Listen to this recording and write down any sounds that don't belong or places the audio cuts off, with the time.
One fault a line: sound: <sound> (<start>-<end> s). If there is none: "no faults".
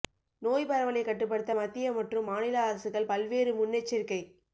no faults